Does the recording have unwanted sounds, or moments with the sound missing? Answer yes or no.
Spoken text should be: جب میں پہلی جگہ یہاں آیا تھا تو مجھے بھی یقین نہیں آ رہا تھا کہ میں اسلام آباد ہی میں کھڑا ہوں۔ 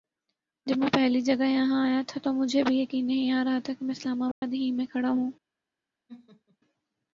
yes